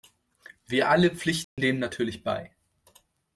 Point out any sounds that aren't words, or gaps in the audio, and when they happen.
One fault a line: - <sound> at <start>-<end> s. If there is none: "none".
- dropout at 1.4-1.6 s